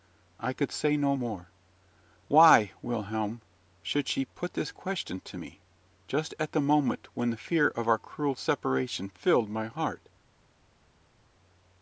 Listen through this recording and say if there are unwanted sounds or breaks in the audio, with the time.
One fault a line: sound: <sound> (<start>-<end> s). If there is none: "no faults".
no faults